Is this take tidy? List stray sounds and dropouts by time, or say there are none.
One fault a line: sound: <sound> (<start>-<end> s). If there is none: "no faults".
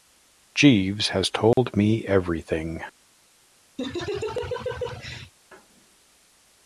sound: dropout (1.5-1.6 s)
sound: laugh (3.8-5.3 s)